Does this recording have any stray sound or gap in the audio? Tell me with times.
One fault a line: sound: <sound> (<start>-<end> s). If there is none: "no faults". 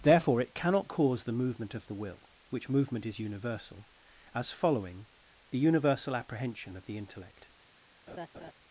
sound: laugh (8.1-8.5 s)